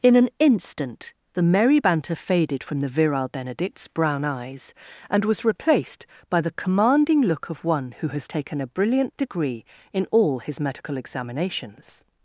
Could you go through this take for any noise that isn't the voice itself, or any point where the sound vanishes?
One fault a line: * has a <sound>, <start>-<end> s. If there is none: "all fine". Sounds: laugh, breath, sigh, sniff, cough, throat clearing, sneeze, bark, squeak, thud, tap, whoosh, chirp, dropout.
all fine